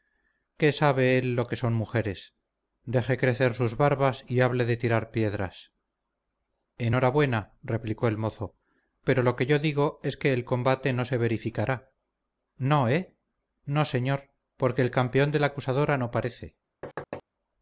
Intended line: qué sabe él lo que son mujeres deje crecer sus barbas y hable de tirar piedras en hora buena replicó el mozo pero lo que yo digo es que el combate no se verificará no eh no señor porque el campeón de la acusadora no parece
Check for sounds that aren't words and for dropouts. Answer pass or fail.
fail